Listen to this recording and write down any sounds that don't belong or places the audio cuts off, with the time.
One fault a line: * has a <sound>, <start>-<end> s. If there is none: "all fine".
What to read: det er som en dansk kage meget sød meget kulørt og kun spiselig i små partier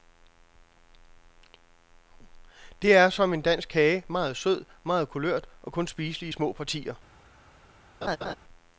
* has a laugh, 8.0-8.4 s